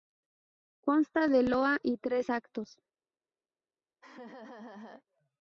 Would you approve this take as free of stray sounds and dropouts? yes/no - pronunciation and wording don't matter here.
no